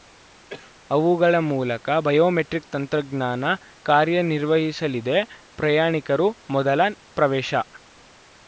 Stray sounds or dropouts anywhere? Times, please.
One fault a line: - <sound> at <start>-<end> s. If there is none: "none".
- cough at 0.5-0.7 s